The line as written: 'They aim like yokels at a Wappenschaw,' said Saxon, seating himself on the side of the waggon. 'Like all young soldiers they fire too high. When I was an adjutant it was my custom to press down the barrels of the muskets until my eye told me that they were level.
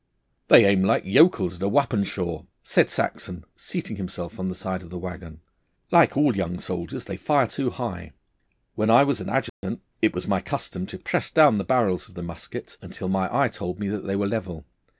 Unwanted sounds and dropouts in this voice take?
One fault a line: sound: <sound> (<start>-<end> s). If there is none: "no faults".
sound: dropout (9.5-9.6 s)